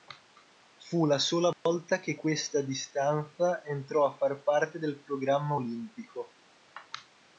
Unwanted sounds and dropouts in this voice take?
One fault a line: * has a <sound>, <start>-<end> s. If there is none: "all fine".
* has a dropout, 1.5-1.7 s